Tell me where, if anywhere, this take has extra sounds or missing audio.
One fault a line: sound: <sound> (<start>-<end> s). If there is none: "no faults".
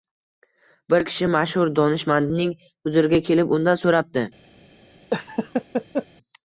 sound: laugh (5.1-6.1 s)